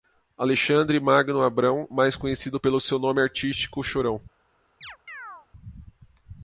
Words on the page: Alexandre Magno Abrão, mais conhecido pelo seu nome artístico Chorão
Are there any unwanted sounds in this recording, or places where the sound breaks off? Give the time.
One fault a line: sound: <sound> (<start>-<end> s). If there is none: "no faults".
sound: chirp (4.8-5.5 s)